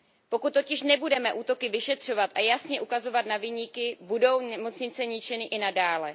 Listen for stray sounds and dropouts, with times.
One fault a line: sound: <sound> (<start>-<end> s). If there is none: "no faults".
no faults